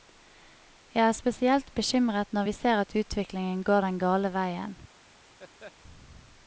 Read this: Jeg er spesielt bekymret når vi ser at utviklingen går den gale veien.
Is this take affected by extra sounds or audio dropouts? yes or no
yes